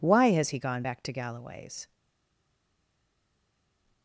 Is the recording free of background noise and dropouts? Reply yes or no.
yes